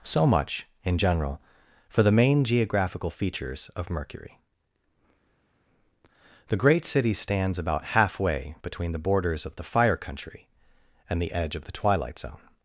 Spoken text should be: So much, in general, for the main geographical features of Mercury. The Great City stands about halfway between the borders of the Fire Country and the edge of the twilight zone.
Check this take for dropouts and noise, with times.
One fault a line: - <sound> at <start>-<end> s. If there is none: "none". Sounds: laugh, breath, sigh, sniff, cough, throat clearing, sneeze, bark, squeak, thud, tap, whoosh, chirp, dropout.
none